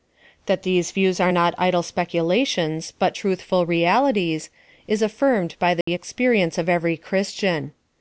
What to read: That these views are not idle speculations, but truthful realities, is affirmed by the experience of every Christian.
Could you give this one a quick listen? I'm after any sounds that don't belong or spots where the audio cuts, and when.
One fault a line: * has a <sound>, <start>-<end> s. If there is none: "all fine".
* has a dropout, 5.8-5.9 s